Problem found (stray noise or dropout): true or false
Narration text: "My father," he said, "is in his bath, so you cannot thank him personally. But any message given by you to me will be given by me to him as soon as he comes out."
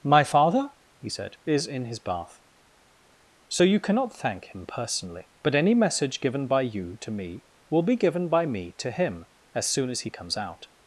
false